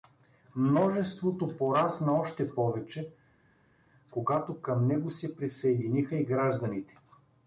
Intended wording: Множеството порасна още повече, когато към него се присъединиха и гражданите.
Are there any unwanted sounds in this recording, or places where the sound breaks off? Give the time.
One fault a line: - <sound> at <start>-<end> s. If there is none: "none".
none